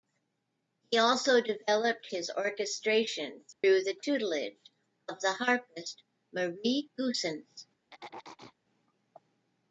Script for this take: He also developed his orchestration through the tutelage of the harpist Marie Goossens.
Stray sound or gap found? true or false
true